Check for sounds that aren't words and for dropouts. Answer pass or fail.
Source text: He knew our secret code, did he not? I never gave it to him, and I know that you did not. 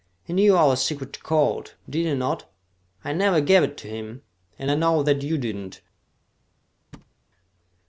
fail